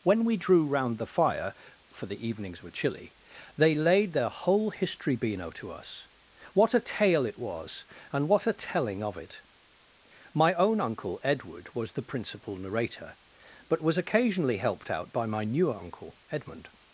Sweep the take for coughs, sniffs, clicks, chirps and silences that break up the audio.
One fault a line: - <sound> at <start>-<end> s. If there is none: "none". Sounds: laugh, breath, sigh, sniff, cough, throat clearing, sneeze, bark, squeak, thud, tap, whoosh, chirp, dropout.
none